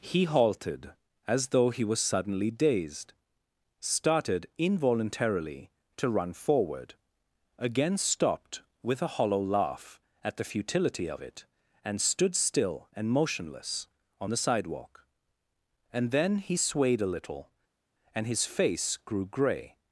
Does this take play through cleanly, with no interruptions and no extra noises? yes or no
yes